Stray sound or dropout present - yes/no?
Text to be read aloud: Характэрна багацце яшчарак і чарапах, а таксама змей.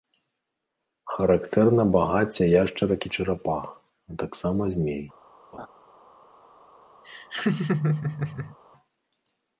yes